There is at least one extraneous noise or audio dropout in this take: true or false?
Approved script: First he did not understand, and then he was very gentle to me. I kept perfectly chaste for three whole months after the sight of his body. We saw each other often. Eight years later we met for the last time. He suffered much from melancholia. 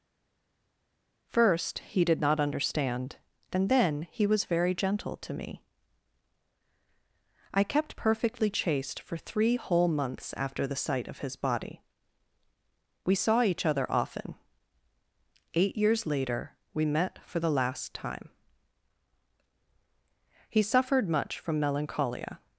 false